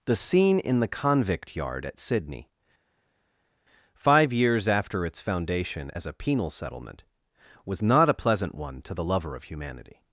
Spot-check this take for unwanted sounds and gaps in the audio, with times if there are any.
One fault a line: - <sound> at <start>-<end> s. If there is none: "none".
none